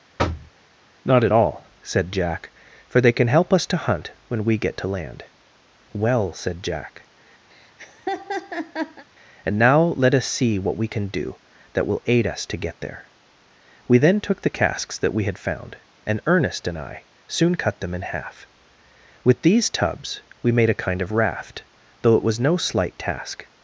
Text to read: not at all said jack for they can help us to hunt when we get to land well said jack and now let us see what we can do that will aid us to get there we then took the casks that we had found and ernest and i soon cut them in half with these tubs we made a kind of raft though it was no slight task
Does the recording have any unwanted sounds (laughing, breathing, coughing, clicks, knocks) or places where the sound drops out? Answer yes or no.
yes